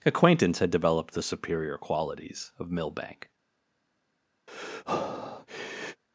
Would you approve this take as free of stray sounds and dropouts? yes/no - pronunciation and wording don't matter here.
no